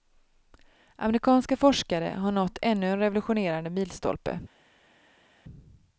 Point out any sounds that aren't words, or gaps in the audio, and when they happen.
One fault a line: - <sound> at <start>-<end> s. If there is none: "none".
none